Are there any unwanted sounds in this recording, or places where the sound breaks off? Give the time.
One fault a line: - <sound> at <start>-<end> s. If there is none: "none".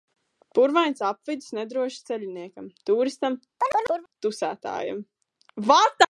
- chirp at 3.6-4.1 s